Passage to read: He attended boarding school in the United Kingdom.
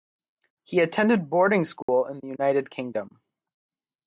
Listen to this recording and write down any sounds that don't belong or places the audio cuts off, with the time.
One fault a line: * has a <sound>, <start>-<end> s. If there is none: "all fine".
* has a dropout, 1.8-1.9 s